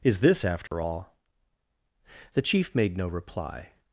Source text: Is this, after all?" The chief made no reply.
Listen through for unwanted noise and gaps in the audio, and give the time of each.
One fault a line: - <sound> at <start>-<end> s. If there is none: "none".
- dropout at 0.7-0.7 s